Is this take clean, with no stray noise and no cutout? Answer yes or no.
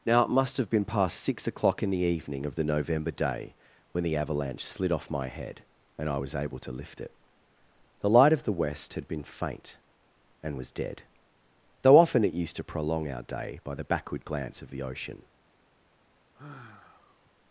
no